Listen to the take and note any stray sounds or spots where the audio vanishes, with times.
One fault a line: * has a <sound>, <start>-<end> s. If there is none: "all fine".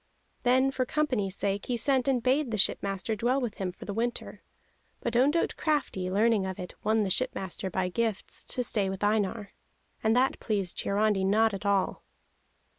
all fine